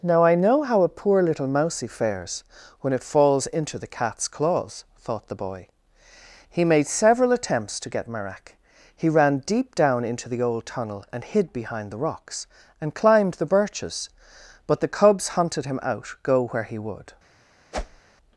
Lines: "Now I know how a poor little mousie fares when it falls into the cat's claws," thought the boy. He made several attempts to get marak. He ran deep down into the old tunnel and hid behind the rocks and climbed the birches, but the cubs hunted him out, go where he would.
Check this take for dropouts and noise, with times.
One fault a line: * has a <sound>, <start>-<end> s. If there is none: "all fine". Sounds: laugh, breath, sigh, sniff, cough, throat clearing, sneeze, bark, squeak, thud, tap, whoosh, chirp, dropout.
* has a whoosh, 17.7-18.0 s